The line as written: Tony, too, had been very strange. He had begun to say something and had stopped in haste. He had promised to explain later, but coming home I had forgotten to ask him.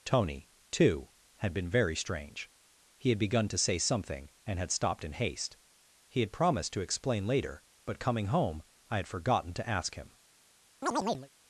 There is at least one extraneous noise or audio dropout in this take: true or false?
true